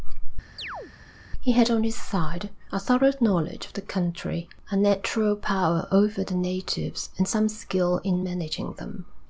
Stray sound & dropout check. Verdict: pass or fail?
fail